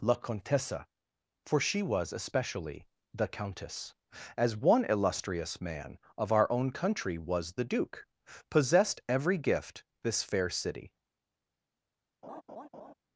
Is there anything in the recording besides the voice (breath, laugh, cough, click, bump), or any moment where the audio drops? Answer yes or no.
yes